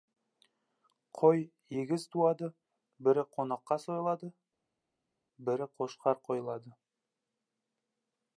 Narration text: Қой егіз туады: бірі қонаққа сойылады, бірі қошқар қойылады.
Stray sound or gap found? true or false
false